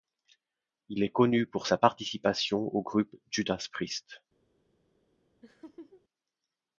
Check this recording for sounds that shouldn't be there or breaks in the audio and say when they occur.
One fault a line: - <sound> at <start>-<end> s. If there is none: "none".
- laugh at 5.4-6.0 s